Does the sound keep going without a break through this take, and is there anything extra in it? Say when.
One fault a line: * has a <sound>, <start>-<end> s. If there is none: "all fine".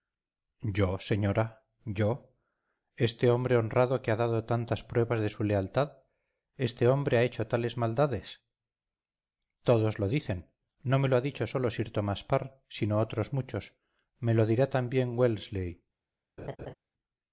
* has a laugh, 16.4-16.7 s